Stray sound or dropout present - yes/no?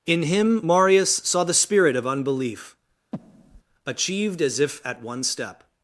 yes